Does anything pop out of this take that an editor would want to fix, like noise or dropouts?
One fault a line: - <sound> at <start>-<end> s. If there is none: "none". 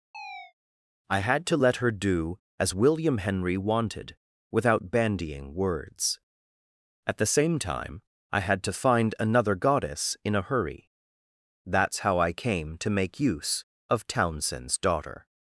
- chirp at 0.1-0.5 s